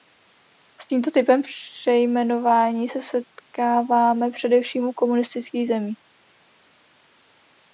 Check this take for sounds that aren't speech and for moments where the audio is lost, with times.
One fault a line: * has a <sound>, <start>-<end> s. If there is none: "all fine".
all fine